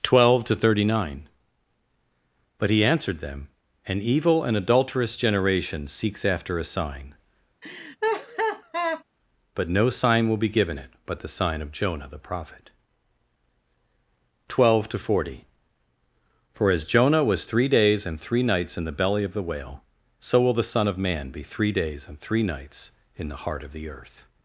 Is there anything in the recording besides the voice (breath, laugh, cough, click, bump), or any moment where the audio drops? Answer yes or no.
yes